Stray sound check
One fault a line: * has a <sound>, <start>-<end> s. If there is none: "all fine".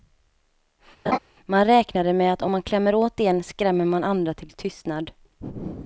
* has a laugh, 1.1-1.2 s